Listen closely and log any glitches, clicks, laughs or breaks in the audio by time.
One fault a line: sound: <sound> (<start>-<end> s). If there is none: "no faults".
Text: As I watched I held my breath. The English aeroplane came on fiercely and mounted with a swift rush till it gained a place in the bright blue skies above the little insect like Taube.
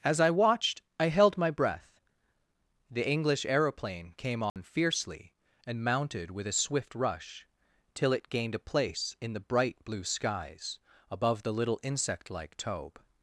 sound: dropout (4.5-4.6 s)